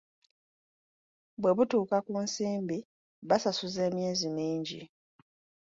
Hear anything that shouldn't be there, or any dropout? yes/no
no